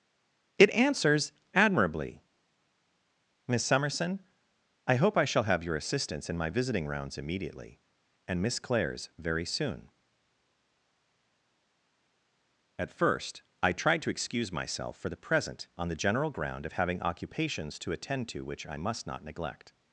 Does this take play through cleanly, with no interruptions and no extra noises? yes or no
yes